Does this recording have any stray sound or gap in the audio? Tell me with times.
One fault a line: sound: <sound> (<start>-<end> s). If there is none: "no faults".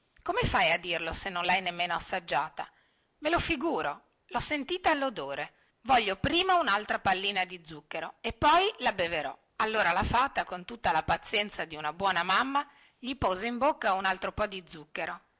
no faults